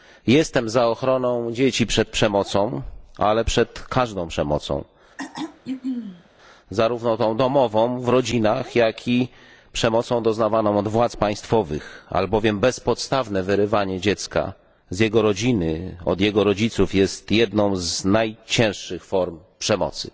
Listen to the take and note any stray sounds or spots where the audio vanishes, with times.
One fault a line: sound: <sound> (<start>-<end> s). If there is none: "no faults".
sound: throat clearing (5.2-6.3 s)